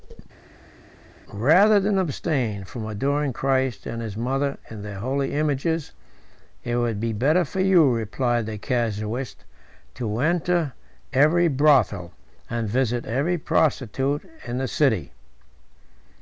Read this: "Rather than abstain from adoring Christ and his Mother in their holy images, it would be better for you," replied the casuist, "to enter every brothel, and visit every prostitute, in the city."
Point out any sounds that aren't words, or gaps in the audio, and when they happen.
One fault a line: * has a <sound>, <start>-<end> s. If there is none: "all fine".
all fine